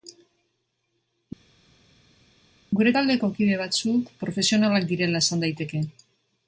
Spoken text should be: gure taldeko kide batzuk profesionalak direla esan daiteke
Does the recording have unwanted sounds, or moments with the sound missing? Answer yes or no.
no